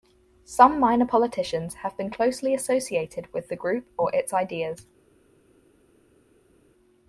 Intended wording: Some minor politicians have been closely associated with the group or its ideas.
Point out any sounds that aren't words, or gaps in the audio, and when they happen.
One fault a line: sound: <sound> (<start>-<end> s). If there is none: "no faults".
no faults